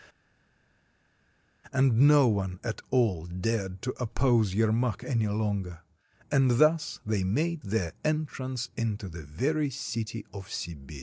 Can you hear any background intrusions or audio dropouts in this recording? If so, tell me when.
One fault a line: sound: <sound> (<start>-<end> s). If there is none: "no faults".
no faults